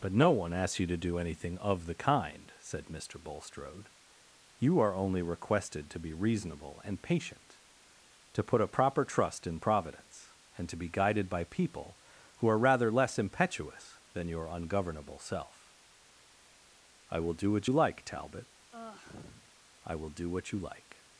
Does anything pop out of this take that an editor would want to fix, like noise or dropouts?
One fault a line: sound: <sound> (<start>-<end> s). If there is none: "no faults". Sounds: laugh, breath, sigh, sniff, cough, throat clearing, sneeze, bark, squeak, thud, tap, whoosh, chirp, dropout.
sound: sigh (18.7-19.5 s)